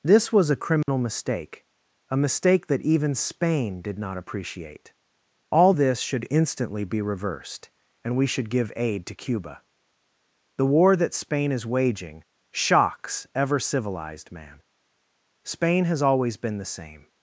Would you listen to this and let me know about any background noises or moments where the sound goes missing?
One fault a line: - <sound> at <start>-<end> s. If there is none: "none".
- dropout at 0.8-0.9 s